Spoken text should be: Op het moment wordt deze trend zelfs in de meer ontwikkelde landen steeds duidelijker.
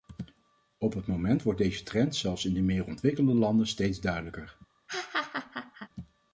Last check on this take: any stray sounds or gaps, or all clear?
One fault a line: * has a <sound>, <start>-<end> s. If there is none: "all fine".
* has a laugh, 4.9-5.9 s